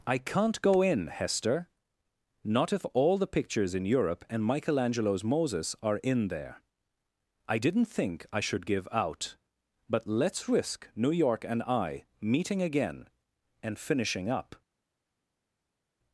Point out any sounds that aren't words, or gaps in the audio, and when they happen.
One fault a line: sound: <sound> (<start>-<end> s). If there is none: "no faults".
no faults